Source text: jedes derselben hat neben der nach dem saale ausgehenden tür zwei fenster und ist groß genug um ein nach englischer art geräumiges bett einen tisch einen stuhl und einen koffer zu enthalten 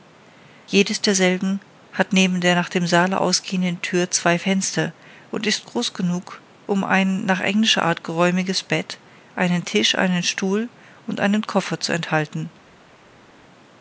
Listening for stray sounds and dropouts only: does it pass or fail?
pass